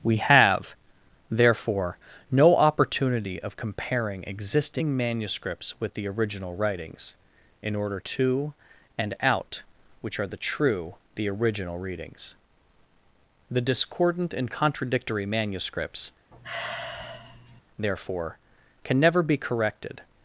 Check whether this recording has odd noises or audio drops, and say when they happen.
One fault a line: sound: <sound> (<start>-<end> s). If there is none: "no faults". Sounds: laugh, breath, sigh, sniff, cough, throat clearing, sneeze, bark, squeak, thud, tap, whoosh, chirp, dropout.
sound: sigh (16.3-17.6 s)